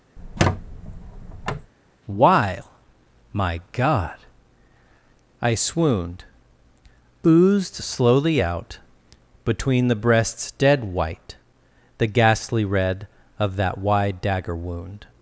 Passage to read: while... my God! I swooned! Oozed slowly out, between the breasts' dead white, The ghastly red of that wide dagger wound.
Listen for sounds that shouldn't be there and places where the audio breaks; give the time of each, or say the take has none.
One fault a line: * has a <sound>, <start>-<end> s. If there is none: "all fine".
* has a squeak, 0.2-1.7 s